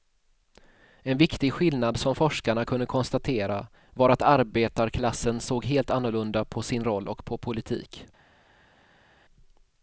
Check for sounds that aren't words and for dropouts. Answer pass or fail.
pass